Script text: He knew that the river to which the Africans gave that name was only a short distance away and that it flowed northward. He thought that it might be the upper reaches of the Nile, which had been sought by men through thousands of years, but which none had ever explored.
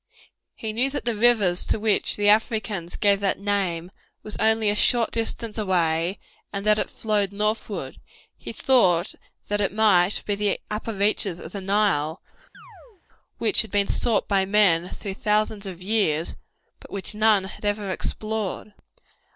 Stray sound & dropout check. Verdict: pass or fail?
fail